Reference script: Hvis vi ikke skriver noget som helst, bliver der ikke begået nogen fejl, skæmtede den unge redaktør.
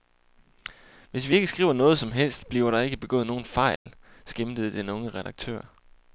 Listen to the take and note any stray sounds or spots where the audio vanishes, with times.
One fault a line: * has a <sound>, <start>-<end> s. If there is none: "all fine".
* has a dropout, 3.8-3.9 s